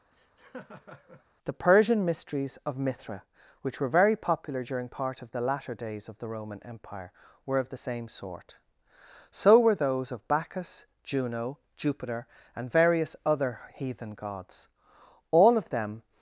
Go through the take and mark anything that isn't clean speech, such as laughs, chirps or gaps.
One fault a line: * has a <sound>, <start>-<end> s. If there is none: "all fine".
* has a laugh, 0.1-1.2 s